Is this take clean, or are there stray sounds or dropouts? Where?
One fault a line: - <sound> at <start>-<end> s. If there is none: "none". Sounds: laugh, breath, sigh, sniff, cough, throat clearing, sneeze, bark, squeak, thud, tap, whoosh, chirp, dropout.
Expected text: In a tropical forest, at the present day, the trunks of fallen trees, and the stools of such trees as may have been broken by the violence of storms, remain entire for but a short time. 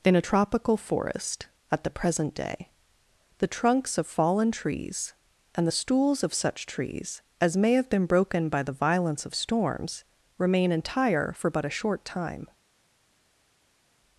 none